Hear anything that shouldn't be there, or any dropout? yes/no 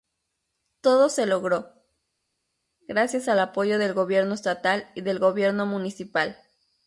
no